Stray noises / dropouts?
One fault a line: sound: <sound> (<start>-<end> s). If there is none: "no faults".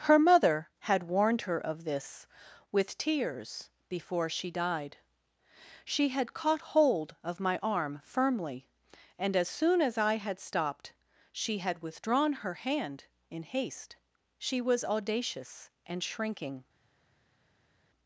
no faults